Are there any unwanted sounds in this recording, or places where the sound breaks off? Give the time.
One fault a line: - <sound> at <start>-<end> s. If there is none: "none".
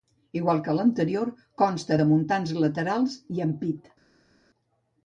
none